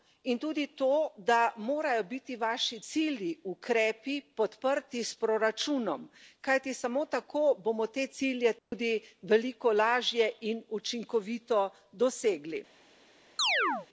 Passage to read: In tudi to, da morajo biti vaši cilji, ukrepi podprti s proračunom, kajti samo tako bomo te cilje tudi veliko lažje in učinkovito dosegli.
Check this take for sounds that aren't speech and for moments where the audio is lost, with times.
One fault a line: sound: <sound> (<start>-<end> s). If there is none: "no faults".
sound: dropout (8.6-8.7 s)
sound: chirp (13.4-13.9 s)